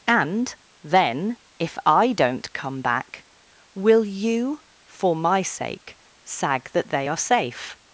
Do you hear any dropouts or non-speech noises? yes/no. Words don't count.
no